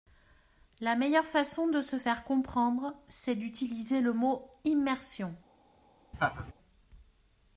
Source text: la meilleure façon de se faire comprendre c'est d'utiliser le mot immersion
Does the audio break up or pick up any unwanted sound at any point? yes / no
yes